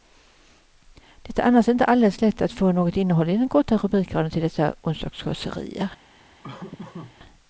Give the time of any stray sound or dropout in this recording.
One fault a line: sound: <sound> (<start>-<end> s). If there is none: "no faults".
sound: laugh (6.4-7.2 s)